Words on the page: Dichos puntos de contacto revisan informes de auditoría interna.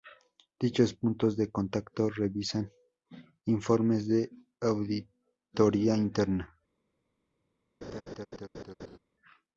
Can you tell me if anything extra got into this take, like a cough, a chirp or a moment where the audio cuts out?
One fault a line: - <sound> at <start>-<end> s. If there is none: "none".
- laugh at 7.8-9.0 s